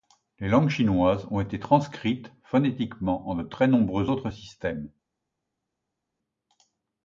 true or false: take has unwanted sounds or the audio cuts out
false